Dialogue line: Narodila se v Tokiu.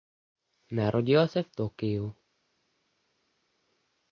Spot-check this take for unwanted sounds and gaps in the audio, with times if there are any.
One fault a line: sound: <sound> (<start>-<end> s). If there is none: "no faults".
no faults